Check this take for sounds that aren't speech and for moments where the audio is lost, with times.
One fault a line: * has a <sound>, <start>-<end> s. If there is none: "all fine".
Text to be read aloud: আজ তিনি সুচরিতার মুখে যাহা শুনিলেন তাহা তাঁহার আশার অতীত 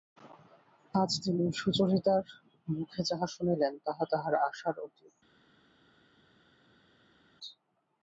all fine